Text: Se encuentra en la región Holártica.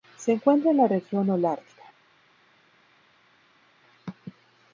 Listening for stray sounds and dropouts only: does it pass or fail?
pass